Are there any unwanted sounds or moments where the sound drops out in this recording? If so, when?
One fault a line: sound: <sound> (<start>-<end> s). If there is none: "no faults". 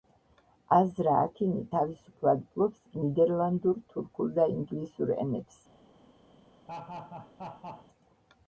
sound: laugh (6.7-7.9 s)